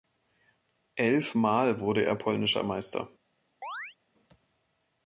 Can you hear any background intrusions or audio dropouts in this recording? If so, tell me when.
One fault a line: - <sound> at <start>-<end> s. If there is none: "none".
- chirp at 3.6-4.0 s